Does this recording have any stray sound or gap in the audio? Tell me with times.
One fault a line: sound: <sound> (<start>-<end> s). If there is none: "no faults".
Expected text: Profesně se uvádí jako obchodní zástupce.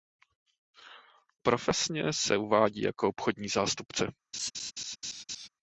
sound: laugh (4.3-5.5 s)